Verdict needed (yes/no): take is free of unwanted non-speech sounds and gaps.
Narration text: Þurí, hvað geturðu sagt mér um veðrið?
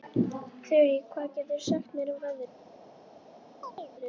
no